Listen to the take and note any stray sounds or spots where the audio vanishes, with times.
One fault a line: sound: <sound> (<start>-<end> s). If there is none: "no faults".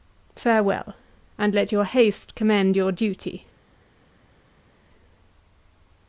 no faults